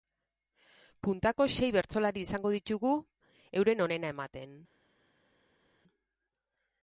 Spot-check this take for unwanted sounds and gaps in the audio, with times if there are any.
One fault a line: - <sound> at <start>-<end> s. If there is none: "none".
none